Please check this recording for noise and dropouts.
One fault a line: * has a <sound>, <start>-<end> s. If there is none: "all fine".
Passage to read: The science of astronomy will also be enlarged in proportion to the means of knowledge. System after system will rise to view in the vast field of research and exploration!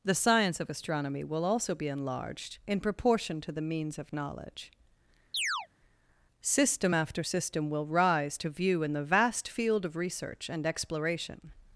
* has a chirp, 5.3-5.7 s